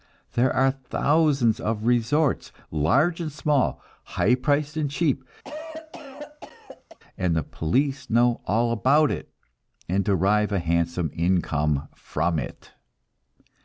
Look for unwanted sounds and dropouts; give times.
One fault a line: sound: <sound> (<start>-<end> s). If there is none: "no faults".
sound: cough (5.4-7.0 s)